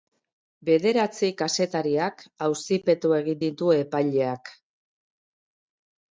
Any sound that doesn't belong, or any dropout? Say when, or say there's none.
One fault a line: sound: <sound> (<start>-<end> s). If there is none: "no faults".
no faults